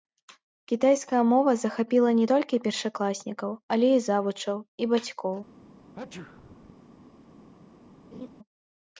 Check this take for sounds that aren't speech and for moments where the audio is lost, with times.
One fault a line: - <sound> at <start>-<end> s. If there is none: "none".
- sneeze at 5.9-6.8 s
- laugh at 8.1-8.3 s